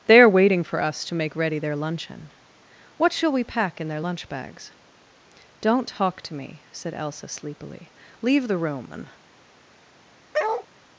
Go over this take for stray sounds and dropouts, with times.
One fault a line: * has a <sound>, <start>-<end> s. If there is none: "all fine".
* has a bark, 10.3-10.7 s